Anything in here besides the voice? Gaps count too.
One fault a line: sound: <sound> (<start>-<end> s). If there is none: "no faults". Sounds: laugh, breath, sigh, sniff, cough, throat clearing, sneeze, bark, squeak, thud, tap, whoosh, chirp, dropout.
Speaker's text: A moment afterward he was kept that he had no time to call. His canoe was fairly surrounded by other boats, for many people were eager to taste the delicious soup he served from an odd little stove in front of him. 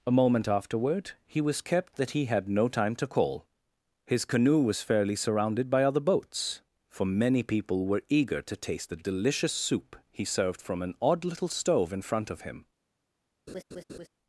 sound: laugh (13.5-14.1 s)